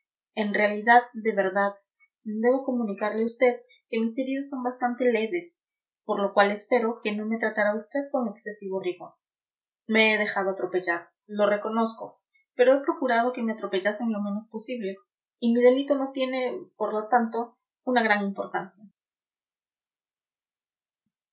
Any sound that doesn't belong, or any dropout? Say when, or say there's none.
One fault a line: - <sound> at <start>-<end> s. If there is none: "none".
none